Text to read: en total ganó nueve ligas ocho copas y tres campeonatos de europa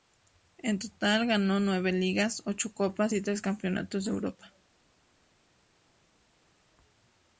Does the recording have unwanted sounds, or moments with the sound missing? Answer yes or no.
no